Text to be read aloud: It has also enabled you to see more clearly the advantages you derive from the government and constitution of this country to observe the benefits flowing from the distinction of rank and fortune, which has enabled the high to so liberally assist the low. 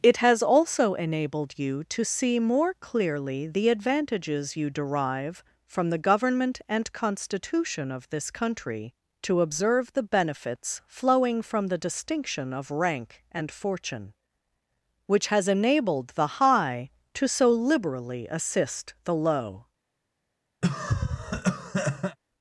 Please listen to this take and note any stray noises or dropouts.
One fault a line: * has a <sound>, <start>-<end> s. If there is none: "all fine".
* has a cough, 20.6-22.2 s